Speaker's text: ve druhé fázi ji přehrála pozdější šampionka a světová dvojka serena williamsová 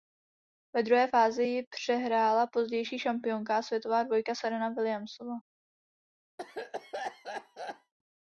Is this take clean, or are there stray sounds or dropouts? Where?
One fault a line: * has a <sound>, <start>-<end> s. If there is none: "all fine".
* has a cough, 6.4-7.9 s